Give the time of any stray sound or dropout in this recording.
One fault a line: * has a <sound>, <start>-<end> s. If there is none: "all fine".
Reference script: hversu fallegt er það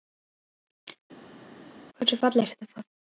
all fine